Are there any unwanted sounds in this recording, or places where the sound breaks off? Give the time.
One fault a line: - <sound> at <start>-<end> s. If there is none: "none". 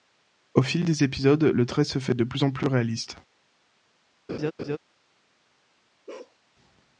- laugh at 4.3-4.8 s
- bark at 6.1-6.4 s